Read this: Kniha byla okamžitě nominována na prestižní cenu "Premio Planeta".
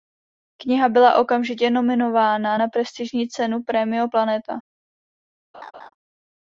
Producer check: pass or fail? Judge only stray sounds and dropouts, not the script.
fail